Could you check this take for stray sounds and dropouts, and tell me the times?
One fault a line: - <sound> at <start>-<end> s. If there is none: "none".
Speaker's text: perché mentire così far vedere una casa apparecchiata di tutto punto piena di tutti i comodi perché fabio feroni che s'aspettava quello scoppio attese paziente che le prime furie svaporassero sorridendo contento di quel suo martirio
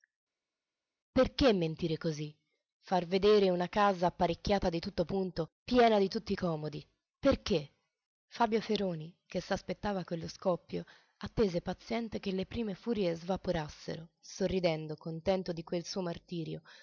none